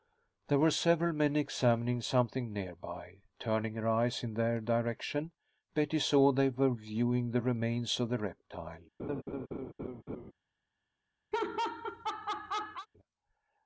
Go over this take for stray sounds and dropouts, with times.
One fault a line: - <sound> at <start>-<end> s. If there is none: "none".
- laugh at 9.0-10.3 s
- laugh at 11.3-12.9 s